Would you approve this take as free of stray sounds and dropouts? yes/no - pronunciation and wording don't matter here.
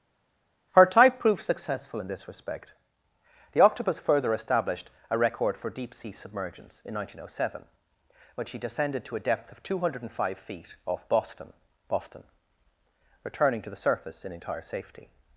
yes